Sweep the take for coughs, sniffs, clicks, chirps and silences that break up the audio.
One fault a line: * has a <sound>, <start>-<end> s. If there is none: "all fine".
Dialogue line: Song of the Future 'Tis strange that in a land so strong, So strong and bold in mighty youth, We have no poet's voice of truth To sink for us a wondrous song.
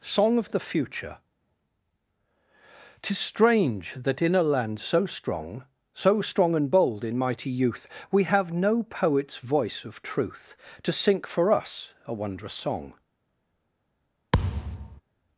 * has a thud, 14.3-15.0 s